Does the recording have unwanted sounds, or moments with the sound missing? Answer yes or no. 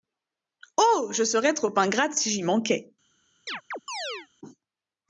yes